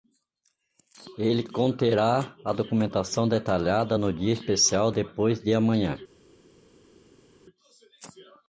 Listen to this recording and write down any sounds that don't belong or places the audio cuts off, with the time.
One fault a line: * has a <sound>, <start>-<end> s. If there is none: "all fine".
all fine